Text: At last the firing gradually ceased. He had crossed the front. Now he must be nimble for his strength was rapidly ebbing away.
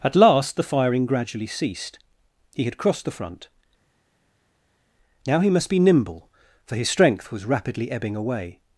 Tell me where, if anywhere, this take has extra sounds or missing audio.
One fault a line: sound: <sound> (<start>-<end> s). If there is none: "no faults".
no faults